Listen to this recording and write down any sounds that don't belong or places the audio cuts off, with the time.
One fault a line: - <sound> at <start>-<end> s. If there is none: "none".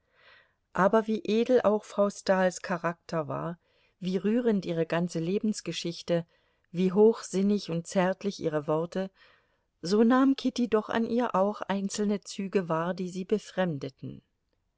none